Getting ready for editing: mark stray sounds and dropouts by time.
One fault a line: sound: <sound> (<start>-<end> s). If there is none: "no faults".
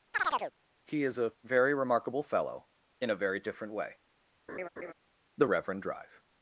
sound: chirp (0.1-0.5 s)
sound: laugh (4.5-4.9 s)